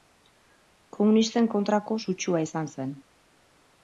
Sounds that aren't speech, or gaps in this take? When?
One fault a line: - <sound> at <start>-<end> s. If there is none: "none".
none